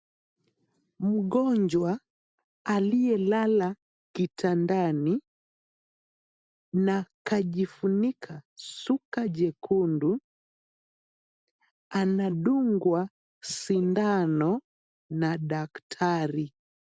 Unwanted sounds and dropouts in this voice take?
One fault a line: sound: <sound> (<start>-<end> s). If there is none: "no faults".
no faults